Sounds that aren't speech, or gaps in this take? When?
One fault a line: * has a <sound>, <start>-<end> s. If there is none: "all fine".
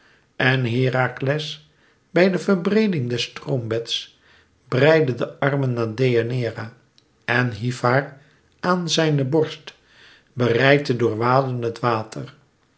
all fine